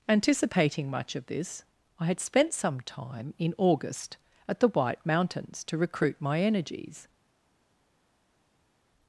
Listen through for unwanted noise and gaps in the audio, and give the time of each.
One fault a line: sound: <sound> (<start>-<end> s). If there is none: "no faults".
no faults